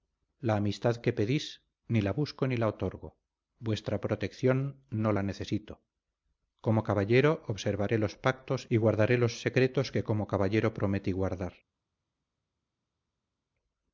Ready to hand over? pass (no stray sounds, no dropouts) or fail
pass